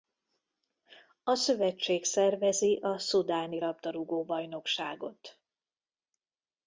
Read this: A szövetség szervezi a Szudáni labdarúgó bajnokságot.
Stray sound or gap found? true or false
false